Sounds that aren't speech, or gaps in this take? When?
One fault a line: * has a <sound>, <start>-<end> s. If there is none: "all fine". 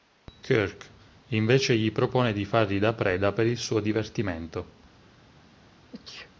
* has a sneeze, 5.9-6.3 s